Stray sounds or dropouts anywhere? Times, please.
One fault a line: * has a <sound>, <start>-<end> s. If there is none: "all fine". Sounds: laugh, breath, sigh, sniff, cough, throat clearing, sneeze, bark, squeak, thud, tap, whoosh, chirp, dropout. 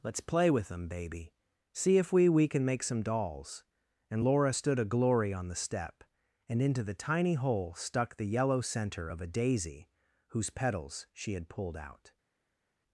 all fine